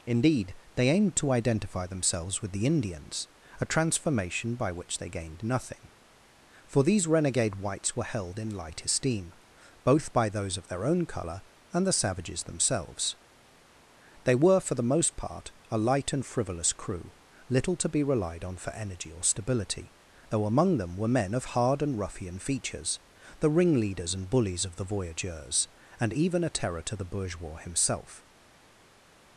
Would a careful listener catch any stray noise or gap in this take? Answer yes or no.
no